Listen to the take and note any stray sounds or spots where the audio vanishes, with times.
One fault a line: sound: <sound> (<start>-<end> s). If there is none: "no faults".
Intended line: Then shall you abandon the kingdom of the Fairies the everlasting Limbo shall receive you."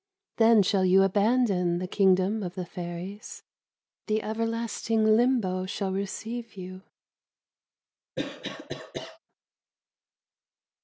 sound: cough (8.2-9.2 s)